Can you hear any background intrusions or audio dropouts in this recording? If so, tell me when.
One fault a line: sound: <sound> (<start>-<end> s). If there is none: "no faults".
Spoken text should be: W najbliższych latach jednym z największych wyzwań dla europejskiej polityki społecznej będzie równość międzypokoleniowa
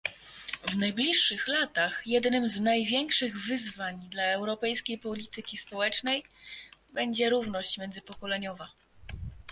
no faults